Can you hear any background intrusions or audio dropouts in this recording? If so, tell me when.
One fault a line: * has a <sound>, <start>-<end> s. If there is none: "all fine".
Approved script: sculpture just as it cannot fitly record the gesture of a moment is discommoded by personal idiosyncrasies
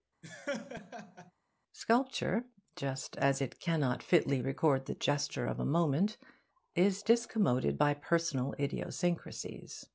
* has a laugh, 0.2-1.3 s